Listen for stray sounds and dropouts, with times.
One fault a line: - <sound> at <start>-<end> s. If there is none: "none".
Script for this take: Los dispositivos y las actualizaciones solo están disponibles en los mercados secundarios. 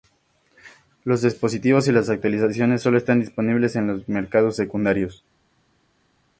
none